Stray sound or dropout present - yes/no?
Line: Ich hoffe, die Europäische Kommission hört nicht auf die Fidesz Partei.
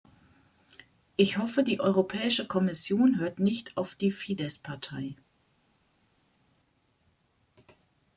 no